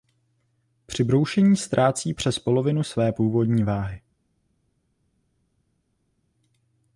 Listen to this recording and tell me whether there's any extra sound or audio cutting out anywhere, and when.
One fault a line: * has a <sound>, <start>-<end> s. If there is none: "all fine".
all fine